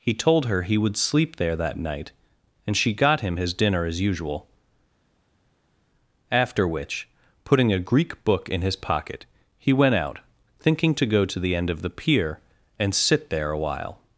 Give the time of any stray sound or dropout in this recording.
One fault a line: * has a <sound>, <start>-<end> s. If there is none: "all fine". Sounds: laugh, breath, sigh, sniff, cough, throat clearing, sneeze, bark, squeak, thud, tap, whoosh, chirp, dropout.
all fine